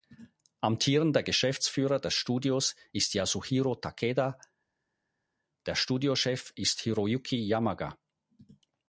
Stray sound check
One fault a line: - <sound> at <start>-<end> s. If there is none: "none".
none